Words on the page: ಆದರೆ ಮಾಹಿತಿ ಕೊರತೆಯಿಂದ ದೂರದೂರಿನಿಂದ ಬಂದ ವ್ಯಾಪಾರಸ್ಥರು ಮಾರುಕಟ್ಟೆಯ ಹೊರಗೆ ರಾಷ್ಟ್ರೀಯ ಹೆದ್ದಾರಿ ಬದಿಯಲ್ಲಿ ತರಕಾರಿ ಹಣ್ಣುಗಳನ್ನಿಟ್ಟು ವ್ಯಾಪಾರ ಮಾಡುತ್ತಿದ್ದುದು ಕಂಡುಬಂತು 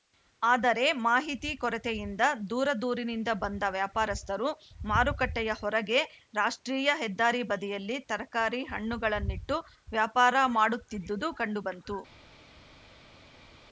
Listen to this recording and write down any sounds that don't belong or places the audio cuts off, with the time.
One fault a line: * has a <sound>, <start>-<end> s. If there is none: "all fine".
all fine